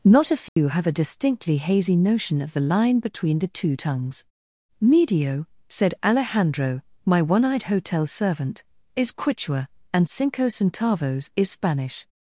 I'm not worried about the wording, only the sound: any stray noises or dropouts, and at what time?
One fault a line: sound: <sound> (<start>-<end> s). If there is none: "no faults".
sound: dropout (0.5-0.6 s)